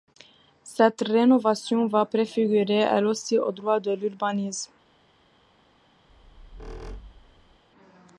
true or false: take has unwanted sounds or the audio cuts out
true